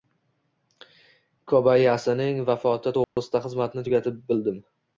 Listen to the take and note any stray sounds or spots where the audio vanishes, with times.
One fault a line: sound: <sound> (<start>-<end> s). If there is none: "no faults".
sound: dropout (3.0-3.2 s)